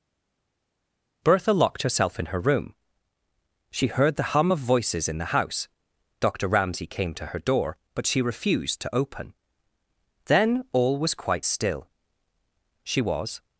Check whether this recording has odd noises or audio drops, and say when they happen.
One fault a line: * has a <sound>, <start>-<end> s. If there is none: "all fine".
all fine